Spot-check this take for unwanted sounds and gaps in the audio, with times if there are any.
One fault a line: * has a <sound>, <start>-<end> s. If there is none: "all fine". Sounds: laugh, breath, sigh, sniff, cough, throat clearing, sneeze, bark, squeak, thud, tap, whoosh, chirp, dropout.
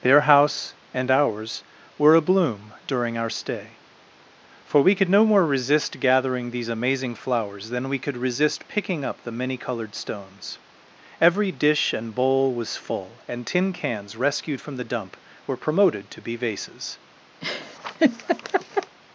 * has a laugh, 17.4-19.0 s